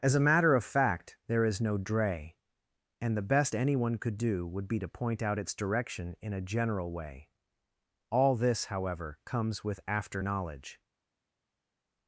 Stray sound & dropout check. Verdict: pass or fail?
pass